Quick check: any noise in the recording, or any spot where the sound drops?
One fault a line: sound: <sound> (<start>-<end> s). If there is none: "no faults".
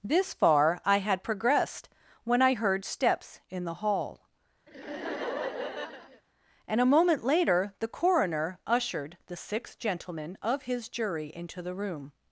sound: laugh (4.7-6.2 s)